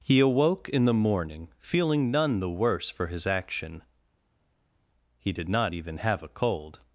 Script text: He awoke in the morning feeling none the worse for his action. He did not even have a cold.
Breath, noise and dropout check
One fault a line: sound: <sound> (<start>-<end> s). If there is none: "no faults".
no faults